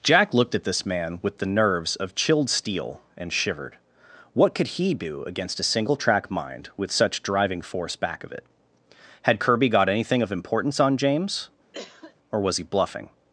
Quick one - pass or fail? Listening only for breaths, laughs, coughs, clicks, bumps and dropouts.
fail